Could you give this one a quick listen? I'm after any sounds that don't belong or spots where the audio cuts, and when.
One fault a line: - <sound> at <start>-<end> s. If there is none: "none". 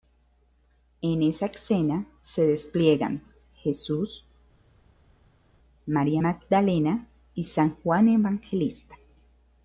none